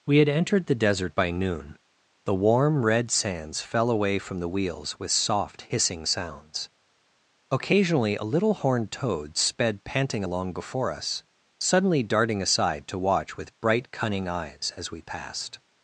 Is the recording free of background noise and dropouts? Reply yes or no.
yes